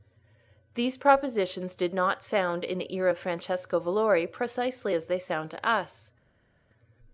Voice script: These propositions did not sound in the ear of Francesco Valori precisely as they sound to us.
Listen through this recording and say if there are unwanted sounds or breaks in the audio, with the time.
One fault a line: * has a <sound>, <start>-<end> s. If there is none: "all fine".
all fine